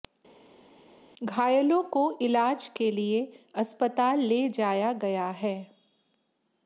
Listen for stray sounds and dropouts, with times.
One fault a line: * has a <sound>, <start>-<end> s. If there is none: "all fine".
all fine